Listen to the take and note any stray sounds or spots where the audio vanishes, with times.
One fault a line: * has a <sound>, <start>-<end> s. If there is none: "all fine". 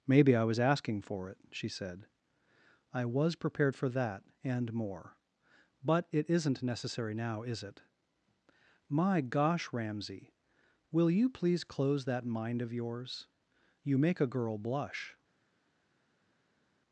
all fine